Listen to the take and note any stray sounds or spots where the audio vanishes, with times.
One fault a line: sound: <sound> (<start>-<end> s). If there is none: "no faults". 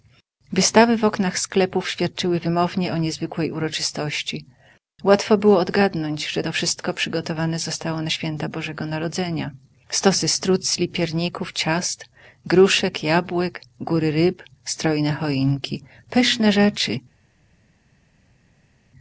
no faults